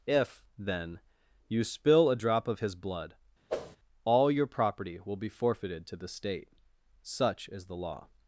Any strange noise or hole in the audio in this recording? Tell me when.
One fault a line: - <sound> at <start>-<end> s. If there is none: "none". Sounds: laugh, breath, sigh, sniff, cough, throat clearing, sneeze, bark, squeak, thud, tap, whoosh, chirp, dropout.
- whoosh at 3.5-3.8 s